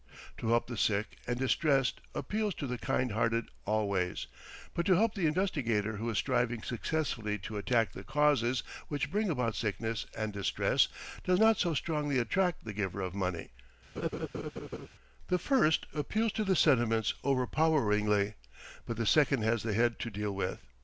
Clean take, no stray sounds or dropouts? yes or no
no